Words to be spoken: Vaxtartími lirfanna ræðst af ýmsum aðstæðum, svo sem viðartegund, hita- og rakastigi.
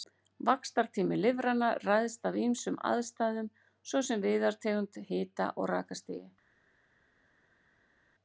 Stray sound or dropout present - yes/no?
no